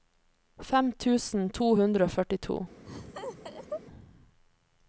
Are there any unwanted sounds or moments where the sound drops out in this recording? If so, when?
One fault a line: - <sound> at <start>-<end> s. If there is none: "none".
- laugh at 2.9-3.8 s